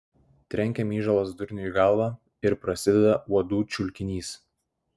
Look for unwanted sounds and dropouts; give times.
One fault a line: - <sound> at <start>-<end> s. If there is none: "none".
none